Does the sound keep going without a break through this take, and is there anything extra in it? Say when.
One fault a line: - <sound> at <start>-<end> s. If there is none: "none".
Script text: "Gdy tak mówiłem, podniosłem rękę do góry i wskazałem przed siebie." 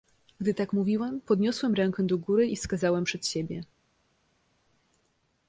none